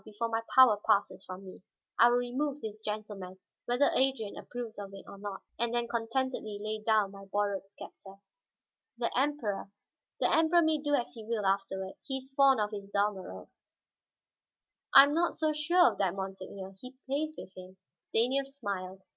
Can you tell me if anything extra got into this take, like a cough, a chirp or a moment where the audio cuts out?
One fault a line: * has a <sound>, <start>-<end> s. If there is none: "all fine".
all fine